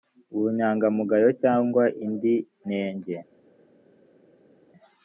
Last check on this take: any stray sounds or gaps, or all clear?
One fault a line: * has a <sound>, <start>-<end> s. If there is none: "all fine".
all fine